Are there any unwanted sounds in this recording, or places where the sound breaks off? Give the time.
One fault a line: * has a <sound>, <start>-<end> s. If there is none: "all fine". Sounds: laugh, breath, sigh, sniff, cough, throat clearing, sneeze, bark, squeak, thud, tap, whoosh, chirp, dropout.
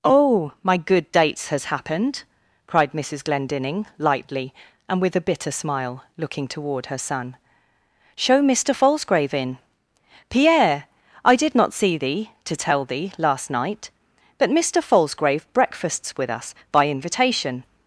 all fine